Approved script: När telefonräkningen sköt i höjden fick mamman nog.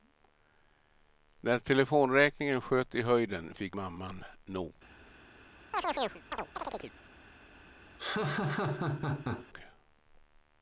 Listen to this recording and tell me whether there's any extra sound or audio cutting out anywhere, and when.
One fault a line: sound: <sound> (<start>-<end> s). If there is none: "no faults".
sound: chirp (5.7-6.9 s)
sound: laugh (8.0-9.5 s)